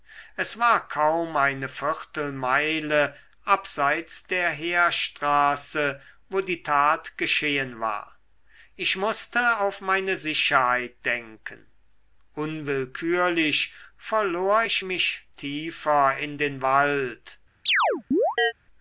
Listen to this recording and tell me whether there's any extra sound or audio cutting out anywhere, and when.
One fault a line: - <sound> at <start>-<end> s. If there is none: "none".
- chirp at 17.7-18.5 s